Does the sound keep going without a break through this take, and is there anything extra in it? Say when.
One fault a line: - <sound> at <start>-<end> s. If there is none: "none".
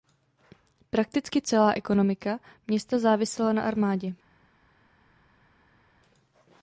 none